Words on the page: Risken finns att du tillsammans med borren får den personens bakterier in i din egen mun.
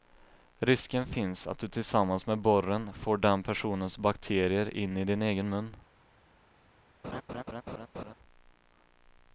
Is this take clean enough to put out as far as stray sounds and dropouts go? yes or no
no